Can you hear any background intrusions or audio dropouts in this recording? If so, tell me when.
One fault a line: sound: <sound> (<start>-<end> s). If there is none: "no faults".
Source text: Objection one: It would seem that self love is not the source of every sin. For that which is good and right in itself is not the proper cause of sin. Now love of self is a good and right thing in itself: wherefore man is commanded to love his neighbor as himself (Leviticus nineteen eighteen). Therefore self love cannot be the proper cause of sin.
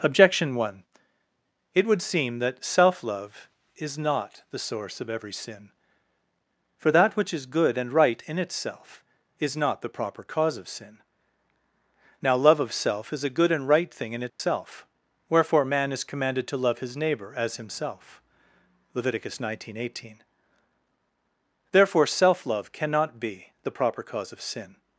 sound: dropout (14.3-14.4 s)